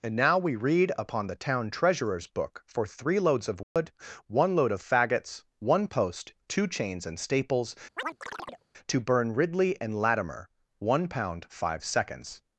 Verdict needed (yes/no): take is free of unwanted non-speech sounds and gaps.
no